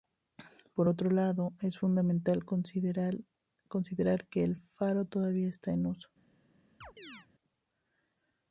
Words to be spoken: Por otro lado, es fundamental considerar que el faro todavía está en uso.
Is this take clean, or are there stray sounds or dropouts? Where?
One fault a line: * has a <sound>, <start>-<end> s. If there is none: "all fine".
* has a chirp, 6.8-7.3 s